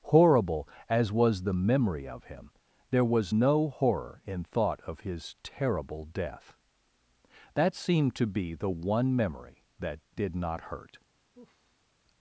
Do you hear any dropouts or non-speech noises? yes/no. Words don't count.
yes